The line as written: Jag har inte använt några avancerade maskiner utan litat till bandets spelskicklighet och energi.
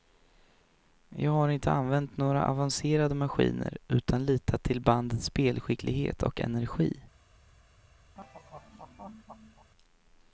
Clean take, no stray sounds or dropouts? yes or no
no